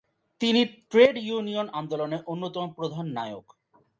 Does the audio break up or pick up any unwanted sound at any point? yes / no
no